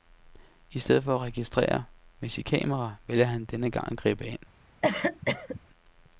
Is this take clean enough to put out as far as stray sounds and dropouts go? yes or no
no